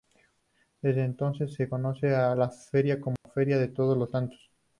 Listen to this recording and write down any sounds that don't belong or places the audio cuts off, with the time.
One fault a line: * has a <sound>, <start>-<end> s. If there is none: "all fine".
* has a dropout, 3.2-3.2 s